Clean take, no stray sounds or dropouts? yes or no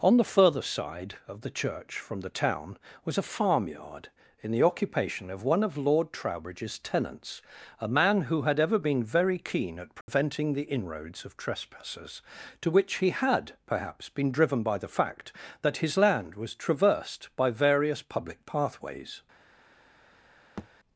no